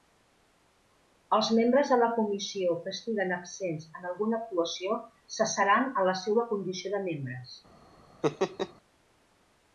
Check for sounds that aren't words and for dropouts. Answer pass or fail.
fail